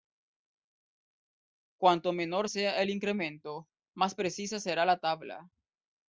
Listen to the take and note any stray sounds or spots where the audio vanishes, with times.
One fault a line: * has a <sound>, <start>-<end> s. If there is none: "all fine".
all fine